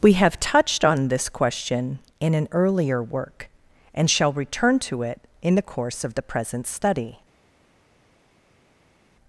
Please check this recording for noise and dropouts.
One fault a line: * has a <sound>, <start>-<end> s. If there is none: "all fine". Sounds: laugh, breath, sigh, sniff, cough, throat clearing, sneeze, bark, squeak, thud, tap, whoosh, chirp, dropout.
all fine